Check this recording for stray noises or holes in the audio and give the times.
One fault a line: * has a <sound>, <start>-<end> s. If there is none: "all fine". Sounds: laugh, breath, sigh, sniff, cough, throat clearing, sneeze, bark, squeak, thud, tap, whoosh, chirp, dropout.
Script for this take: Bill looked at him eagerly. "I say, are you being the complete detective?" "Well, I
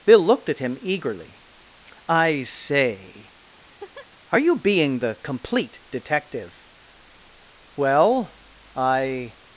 * has a laugh, 3.6-4.1 s